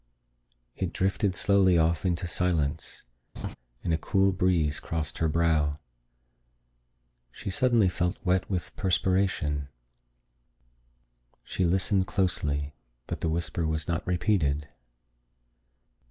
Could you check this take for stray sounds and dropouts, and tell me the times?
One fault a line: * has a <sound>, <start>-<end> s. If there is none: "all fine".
* has a laugh, 3.4-3.6 s